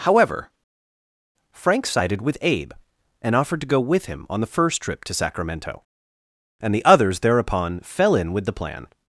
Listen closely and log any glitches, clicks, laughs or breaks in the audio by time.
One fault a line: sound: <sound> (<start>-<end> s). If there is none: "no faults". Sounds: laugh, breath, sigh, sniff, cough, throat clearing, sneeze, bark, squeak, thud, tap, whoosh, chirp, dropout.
no faults